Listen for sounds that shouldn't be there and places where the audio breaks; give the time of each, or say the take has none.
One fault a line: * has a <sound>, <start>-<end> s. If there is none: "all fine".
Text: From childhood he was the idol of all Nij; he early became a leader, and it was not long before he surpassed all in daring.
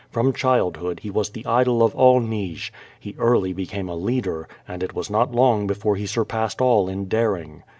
all fine